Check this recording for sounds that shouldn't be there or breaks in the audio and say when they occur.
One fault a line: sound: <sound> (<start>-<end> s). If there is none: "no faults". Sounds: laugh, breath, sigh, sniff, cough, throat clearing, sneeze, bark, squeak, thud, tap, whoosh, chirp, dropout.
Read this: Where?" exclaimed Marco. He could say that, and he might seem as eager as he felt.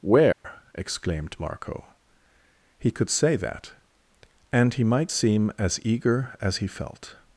sound: dropout (0.3-0.4 s)